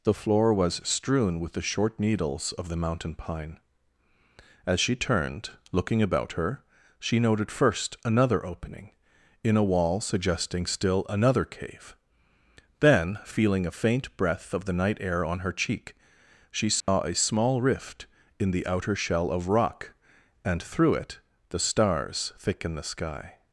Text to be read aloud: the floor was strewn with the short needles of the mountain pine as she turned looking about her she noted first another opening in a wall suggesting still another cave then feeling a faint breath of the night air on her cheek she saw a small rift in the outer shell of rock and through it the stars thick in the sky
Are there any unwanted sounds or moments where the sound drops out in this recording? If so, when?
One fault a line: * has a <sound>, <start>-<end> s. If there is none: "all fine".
* has a dropout, 16.8-16.9 s